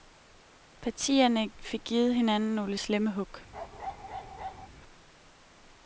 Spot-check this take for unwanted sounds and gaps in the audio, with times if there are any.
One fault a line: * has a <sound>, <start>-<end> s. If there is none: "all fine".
* has a bark, 3.5-4.7 s